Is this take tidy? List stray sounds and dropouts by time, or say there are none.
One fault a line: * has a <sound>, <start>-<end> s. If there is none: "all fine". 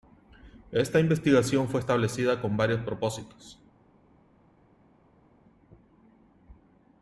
all fine